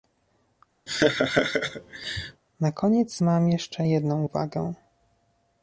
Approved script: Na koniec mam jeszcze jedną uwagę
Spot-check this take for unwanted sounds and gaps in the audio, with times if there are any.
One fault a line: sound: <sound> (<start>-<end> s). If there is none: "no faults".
sound: laugh (0.9-2.4 s)